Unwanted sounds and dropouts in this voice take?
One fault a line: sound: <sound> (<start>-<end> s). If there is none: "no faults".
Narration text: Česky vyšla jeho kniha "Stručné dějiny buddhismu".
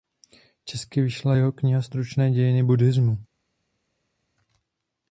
no faults